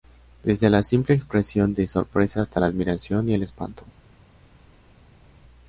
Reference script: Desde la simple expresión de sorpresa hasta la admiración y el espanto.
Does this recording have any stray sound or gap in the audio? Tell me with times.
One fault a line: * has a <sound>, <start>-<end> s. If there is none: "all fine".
all fine